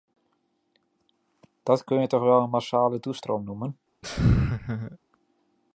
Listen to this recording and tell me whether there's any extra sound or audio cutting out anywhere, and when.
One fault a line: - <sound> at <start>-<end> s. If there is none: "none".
- laugh at 4.0-5.0 s